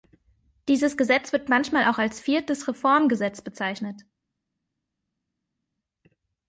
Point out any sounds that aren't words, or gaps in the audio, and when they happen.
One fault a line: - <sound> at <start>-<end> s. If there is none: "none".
none